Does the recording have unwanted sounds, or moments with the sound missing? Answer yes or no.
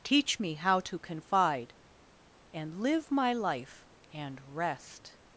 no